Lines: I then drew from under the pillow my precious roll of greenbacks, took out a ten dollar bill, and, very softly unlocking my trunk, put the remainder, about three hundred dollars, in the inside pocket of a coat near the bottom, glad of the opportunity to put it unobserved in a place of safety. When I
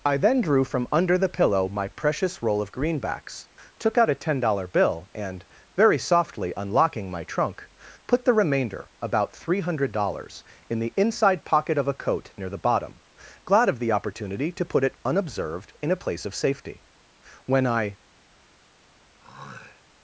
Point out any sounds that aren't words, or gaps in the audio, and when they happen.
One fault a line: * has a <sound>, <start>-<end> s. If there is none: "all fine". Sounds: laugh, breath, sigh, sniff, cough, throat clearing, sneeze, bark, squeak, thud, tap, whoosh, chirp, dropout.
* has a throat clearing, 19.2-19.8 s